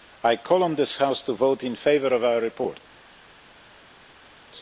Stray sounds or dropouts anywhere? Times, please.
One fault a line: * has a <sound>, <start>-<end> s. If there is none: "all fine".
all fine